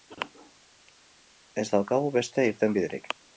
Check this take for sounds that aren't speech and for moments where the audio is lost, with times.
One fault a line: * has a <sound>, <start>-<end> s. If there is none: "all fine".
all fine